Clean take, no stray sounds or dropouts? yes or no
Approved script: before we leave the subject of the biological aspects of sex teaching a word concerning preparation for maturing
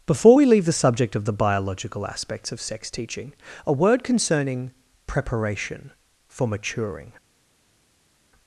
yes